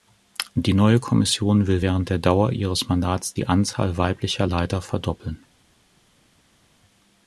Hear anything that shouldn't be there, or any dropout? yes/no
no